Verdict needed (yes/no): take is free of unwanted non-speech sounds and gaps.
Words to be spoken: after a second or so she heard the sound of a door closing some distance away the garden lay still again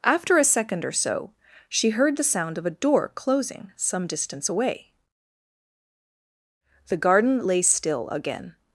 yes